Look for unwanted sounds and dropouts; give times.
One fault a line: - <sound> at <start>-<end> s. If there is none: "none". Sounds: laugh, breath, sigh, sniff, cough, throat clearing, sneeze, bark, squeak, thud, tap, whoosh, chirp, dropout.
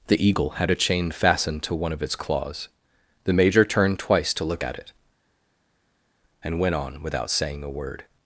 none